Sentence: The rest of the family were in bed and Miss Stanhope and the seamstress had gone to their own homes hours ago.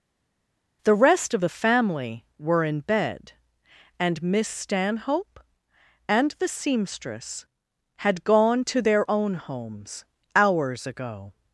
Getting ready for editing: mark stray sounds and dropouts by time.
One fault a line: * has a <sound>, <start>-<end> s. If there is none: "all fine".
all fine